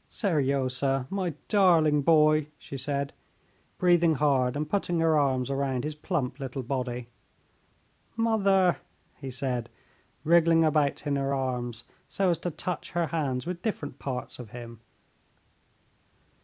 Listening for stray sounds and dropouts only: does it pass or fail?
pass